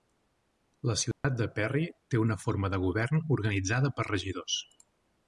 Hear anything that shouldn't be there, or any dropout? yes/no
yes